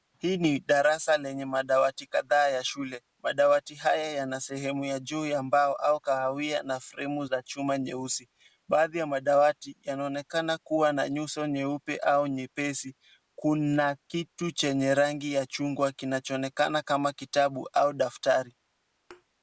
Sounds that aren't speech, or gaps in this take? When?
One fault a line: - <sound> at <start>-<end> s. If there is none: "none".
- thud at 19.1-19.2 s